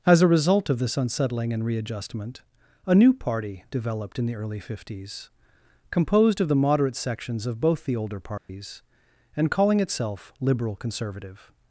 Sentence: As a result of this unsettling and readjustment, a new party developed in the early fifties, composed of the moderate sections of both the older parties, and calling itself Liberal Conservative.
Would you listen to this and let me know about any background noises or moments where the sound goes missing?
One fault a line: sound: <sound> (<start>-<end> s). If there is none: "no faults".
sound: dropout (8.4-8.5 s)